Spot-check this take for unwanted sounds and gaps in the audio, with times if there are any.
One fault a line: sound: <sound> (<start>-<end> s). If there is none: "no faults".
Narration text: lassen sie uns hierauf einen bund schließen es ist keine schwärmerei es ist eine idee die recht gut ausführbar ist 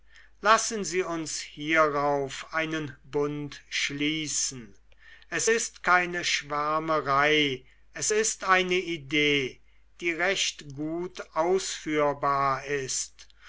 no faults